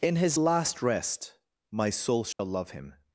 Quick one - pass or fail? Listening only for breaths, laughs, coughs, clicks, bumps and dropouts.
fail